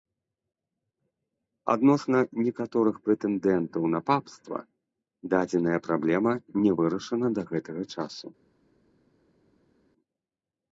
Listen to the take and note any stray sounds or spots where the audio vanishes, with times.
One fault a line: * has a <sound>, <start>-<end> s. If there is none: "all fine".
all fine